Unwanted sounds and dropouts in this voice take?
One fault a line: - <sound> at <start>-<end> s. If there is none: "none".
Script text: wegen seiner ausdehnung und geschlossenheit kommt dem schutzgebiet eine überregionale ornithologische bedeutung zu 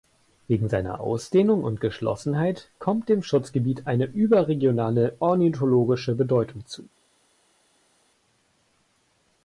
none